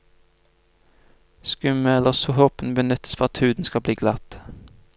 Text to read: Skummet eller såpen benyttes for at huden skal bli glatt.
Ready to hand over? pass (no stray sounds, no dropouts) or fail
pass